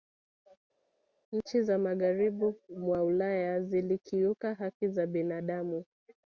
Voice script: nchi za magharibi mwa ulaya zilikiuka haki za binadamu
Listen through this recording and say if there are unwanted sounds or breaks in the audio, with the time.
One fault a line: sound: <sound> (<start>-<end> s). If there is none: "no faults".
no faults